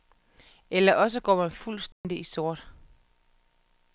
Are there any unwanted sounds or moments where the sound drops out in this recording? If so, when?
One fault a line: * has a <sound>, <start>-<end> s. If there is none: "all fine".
* has a dropout, 1.9-2.0 s